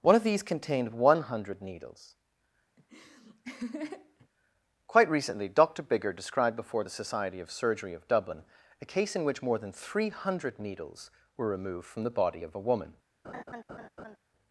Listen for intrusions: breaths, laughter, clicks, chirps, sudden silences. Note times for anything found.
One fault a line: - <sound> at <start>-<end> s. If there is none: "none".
- laugh at 2.8-4.3 s
- laugh at 13.2-14.2 s